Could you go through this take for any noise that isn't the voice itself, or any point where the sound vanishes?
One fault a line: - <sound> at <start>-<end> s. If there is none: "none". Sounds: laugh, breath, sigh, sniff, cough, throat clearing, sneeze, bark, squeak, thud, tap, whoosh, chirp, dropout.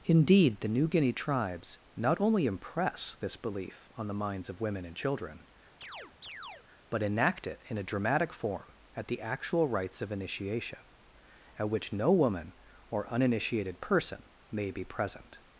- chirp at 5.8-6.7 s